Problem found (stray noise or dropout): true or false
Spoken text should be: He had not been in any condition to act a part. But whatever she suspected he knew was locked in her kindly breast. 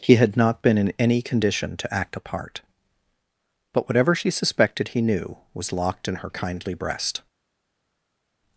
false